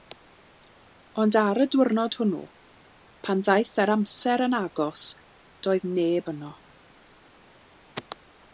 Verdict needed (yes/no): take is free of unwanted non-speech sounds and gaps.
yes